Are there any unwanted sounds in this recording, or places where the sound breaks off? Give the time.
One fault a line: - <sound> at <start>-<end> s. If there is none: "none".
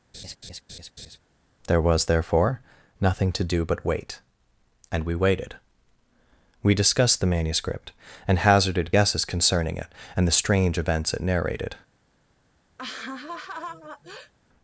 - laugh at 0.1-1.2 s
- laugh at 12.8-14.3 s